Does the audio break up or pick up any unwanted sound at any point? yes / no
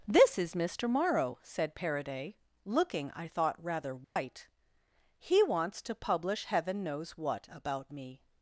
yes